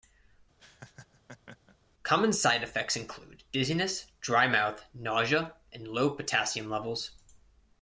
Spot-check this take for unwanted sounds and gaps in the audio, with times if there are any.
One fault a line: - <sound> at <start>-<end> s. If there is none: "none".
- laugh at 0.6-1.8 s